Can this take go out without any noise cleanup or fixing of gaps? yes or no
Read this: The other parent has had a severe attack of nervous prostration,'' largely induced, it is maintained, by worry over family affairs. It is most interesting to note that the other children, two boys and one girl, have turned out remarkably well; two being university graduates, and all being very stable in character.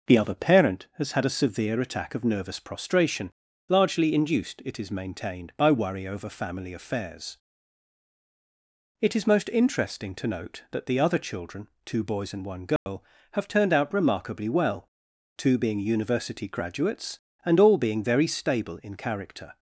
no